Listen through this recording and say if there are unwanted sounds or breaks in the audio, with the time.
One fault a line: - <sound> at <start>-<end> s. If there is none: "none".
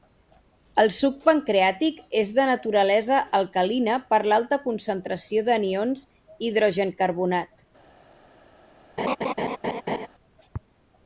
- laugh at 9.0-10.1 s